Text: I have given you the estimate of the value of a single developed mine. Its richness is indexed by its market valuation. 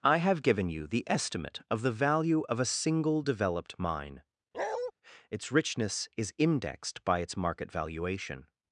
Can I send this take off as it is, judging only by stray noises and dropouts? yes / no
no